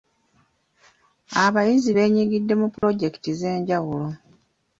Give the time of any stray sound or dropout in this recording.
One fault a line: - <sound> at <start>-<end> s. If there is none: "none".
- dropout at 2.8-2.8 s